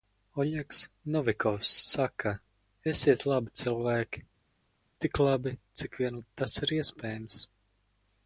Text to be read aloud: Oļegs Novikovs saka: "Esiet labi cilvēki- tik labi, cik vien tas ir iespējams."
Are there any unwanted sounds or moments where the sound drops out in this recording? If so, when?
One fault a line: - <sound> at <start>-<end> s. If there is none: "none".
none